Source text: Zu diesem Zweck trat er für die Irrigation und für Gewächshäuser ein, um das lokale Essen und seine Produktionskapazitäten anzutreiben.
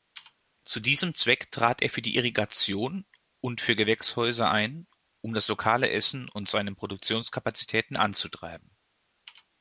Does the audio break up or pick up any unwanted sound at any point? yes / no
no